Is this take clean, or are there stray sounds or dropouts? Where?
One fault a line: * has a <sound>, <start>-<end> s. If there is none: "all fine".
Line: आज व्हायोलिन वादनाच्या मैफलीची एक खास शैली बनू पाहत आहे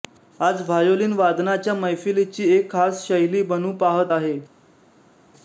all fine